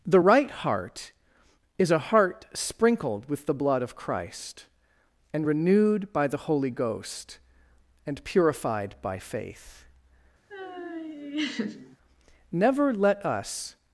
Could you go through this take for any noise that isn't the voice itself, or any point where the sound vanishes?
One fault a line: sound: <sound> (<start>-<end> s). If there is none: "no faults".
sound: laugh (10.5-12.0 s)